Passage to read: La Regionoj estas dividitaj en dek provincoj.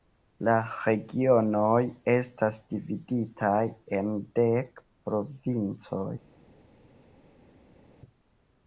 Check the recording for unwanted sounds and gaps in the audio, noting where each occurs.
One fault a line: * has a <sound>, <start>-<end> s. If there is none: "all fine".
all fine